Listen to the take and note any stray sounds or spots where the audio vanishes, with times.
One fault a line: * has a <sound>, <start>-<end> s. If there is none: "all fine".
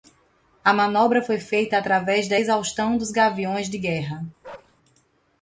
* has a bark, 4.4-4.8 s